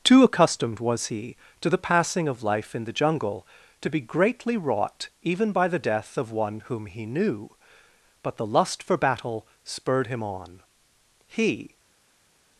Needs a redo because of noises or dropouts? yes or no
no